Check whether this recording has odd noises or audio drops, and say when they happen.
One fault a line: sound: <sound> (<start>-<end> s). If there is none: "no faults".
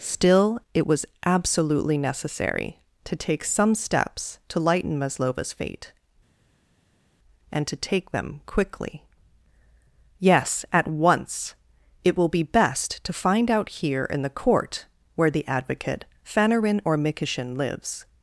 no faults